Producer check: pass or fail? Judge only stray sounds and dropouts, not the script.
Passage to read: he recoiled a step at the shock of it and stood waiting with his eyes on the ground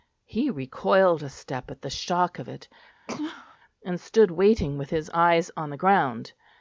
fail